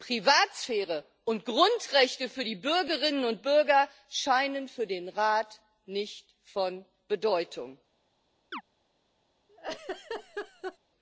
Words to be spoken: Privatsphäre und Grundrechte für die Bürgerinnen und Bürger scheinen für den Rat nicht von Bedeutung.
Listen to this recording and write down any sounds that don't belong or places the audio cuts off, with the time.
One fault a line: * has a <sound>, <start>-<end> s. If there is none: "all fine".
* has a chirp, 8.5-8.6 s
* has a laugh, 9.5-10.8 s